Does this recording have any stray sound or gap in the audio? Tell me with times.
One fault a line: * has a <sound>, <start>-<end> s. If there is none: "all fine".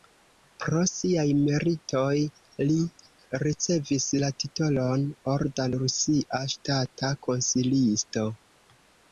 all fine